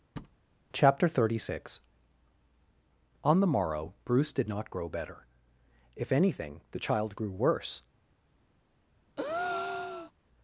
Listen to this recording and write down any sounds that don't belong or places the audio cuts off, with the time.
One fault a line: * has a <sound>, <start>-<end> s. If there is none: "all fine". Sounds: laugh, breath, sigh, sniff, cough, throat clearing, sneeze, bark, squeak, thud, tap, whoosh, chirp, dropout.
* has a thud, 0.2-0.4 s
* has a breath, 9.2-10.1 s